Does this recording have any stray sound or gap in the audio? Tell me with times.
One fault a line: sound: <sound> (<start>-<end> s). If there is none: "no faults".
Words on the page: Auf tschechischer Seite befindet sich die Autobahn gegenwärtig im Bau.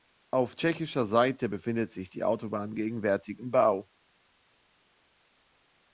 no faults